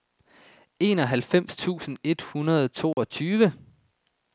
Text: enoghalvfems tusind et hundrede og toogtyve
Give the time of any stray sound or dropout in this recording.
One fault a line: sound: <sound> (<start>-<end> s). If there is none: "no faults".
sound: dropout (2.9-3.0 s)